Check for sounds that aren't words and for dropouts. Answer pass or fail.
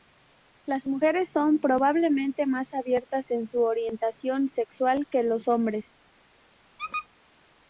fail